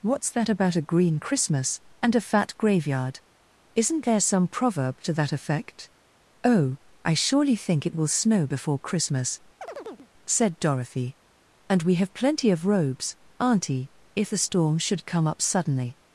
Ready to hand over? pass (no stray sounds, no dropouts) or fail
fail